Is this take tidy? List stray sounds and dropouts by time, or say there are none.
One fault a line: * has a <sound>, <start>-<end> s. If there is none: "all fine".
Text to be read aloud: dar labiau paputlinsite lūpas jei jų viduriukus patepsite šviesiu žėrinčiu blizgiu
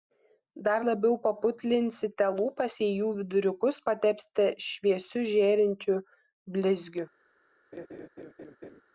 * has a laugh, 7.7-8.8 s